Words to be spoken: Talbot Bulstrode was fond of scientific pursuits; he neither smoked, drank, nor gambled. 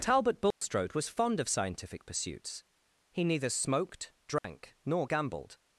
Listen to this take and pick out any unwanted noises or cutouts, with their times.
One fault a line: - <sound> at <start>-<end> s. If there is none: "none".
- dropout at 0.5-0.6 s
- dropout at 4.4-4.4 s